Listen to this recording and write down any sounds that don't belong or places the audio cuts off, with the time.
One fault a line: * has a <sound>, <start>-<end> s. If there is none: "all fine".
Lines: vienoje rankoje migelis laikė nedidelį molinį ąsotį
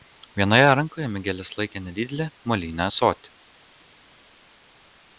all fine